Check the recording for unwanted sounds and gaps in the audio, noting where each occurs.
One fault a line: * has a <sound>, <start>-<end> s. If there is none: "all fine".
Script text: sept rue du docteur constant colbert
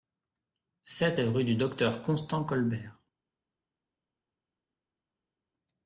all fine